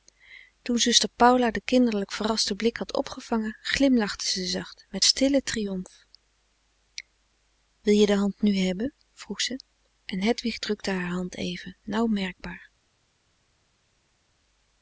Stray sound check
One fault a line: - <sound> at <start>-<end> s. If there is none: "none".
none